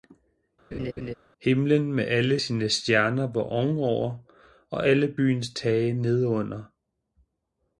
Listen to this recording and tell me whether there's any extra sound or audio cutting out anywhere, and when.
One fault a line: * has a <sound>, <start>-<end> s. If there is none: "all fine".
* has a laugh, 0.7-1.1 s